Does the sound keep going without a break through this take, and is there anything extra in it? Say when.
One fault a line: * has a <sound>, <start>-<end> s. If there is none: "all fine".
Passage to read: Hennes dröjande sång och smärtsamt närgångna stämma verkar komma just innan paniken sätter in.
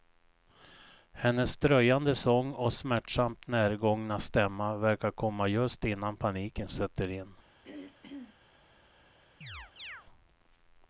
* has a throat clearing, 7.6-8.4 s
* has a chirp, 9.4-10.1 s